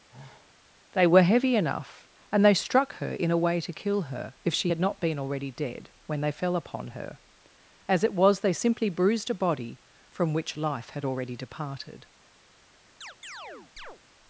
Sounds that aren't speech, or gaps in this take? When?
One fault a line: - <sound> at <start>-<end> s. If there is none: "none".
- sigh at 0.1-0.6 s
- chirp at 13.0-14.0 s